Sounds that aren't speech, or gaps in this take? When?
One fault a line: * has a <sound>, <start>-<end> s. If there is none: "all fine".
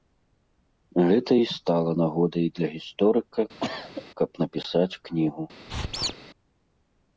* has a cough, 3.6-4.1 s
* has a squeak, 5.7-6.1 s